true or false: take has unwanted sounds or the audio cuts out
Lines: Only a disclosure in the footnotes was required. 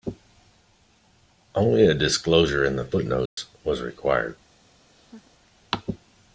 true